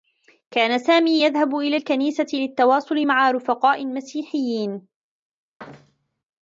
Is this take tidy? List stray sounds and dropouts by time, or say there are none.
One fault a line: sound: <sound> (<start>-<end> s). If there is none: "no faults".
sound: thud (5.6-6.2 s)